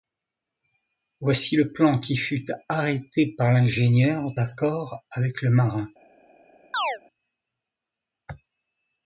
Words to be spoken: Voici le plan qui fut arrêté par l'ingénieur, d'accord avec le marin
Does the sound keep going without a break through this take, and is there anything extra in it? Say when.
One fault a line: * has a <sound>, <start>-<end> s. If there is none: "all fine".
* has a chirp, 6.7-7.0 s